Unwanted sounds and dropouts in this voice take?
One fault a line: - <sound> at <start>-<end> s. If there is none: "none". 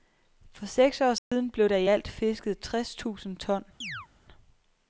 - dropout at 1.2-1.3 s
- chirp at 3.8-4.1 s